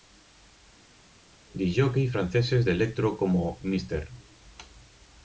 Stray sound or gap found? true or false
false